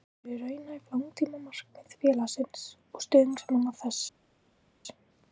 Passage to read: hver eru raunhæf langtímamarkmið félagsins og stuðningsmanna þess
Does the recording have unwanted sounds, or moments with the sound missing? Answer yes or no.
no